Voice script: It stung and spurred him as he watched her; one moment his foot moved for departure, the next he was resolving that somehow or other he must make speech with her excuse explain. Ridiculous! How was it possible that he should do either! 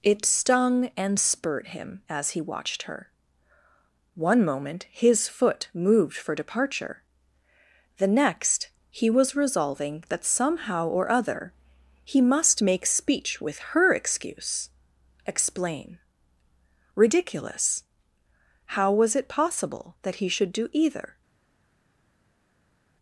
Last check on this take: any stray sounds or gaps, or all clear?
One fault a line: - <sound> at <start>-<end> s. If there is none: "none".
none